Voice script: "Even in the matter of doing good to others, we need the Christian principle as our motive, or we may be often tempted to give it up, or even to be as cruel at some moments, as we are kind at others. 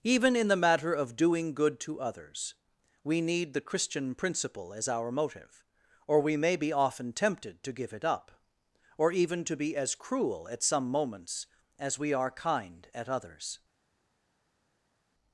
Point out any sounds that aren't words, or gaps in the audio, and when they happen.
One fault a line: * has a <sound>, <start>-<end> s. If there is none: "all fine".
all fine